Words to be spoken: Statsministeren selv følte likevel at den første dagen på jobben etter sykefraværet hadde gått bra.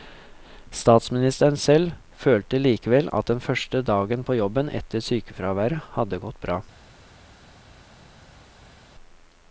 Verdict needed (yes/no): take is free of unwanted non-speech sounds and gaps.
yes